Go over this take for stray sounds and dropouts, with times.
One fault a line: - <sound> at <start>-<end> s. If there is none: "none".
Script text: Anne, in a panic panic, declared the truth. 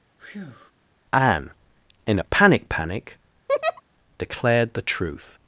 - breath at 0.2-0.7 s
- laugh at 3.5-3.8 s